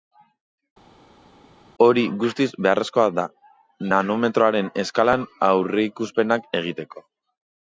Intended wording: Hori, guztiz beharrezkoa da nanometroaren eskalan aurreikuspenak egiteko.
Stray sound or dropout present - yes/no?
no